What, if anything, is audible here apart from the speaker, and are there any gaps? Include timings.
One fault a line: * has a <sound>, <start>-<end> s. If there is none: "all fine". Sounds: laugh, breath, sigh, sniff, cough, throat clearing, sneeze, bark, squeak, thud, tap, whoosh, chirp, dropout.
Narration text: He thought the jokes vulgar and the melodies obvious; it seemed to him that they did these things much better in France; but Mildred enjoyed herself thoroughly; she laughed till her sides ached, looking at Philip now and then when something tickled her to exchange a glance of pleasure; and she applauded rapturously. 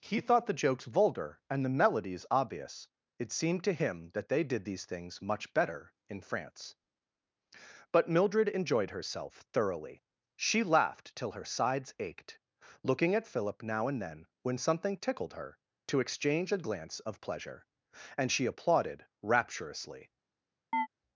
* has a chirp, 20.7-20.9 s